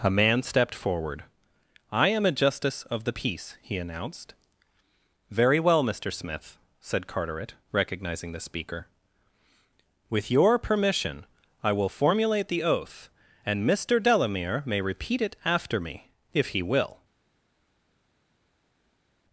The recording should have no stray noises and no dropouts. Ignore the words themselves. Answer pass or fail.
pass